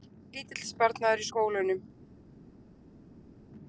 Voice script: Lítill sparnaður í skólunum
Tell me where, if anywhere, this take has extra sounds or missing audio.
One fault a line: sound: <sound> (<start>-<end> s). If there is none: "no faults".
no faults